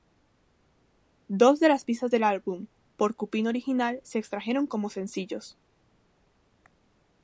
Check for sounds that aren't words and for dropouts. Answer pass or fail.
pass